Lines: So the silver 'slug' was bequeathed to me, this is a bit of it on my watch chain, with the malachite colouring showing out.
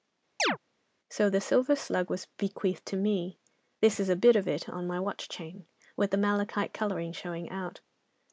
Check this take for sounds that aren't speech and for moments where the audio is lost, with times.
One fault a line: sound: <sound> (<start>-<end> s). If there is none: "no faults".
sound: chirp (0.4-0.6 s)